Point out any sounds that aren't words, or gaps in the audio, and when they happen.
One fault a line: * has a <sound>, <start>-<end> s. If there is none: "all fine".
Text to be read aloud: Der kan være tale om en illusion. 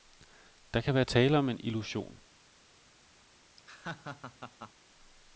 * has a laugh, 3.6-4.7 s